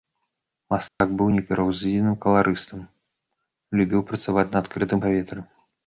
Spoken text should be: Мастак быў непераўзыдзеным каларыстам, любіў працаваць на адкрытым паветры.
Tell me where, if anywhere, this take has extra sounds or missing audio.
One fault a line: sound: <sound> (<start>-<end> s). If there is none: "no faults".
sound: dropout (0.9-1.0 s)